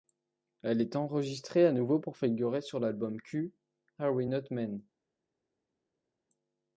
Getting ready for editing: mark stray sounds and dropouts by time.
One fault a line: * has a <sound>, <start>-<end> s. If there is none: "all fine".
all fine